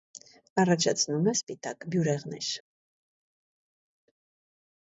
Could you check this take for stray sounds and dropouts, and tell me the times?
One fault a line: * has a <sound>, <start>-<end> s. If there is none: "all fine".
all fine